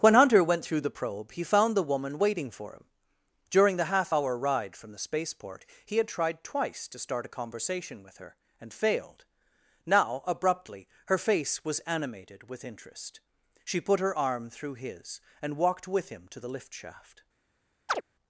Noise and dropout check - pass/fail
fail